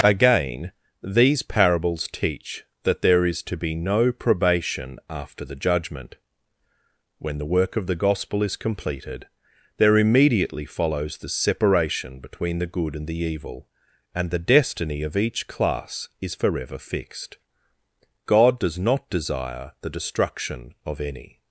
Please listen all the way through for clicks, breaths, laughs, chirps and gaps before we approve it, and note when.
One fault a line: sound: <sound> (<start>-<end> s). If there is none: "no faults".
no faults